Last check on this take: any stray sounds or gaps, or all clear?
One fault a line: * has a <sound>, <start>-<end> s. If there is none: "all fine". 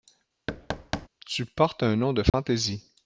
* has a thud, 0.5-1.1 s
* has a dropout, 2.3-2.3 s